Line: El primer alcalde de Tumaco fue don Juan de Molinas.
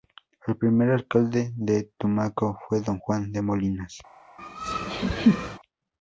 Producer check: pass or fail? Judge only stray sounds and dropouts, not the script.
fail